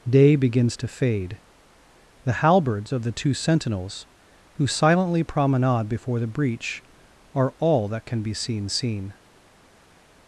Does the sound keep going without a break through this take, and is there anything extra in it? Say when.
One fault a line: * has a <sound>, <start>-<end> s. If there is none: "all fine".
all fine